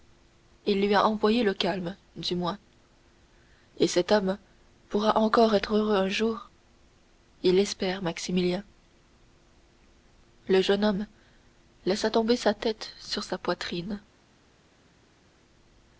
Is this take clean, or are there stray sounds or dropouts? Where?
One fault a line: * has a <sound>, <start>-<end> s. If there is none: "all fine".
all fine